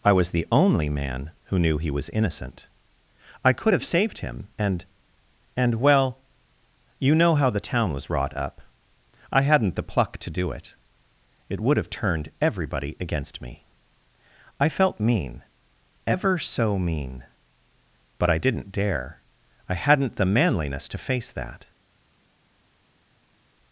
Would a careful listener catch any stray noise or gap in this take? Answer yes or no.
no